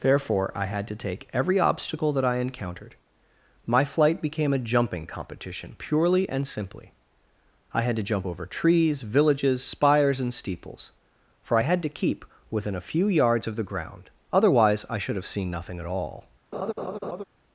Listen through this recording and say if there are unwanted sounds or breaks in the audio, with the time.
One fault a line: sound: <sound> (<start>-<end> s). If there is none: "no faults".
sound: laugh (16.5-17.2 s)